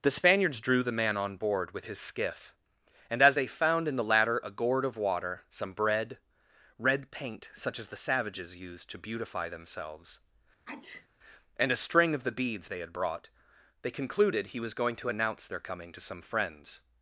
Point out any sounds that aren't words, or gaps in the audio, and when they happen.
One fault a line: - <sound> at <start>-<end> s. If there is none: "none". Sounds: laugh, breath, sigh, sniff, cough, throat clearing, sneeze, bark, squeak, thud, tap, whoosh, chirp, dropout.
- sneeze at 10.6-11.1 s